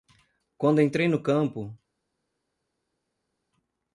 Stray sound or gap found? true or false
false